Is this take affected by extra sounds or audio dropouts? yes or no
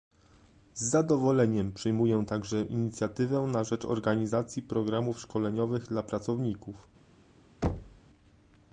yes